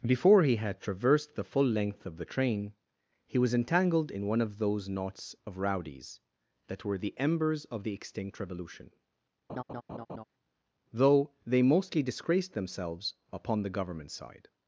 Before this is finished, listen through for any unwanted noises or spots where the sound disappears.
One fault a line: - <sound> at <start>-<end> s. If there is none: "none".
- laugh at 9.5-10.2 s